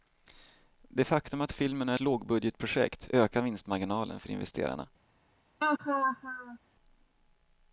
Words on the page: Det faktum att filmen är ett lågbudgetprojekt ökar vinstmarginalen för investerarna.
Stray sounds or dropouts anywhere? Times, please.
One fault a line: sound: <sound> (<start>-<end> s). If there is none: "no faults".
sound: laugh (5.6-6.6 s)